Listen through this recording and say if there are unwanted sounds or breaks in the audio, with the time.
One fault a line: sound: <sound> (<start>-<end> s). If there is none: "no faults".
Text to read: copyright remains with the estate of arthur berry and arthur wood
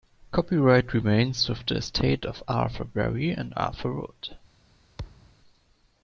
sound: thud (5.0-5.4 s)